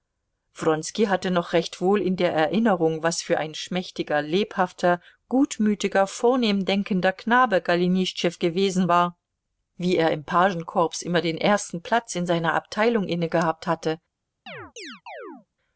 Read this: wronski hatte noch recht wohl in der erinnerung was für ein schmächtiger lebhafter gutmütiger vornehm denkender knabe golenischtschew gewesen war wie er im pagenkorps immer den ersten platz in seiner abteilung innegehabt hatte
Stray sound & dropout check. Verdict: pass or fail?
fail